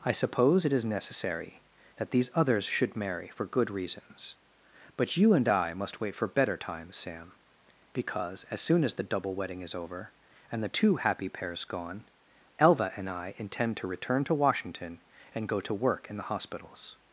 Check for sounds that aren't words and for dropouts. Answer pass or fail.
pass